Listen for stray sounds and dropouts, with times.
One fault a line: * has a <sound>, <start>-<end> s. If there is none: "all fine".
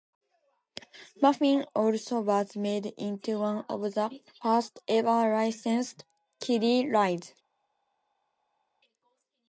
all fine